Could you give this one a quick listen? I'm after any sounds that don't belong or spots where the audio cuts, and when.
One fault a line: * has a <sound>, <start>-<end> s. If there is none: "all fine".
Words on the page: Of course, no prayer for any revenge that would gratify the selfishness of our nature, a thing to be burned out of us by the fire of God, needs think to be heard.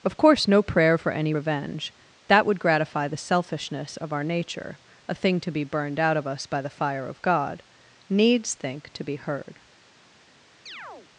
* has a chirp, 10.7-11.1 s